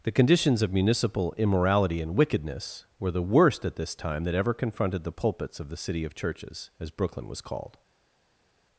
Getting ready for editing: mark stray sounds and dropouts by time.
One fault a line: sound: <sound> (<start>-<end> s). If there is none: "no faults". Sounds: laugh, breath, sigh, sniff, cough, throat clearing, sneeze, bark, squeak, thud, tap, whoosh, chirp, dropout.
no faults